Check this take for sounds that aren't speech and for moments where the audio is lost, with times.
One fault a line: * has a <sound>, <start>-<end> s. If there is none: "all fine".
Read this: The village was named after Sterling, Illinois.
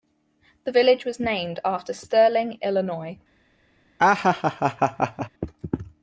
* has a laugh, 4.0-5.3 s